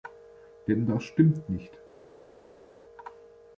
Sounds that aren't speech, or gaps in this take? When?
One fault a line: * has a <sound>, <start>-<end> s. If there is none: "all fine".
all fine